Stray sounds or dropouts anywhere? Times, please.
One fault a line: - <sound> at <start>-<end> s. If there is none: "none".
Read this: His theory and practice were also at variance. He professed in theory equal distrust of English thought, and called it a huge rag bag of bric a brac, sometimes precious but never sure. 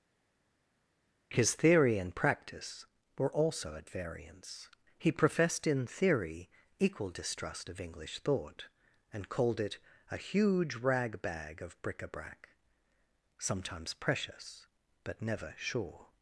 none